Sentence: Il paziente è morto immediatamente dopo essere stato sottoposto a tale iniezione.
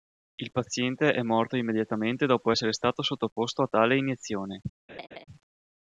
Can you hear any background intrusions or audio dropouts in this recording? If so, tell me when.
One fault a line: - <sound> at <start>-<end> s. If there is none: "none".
- laugh at 4.9-5.2 s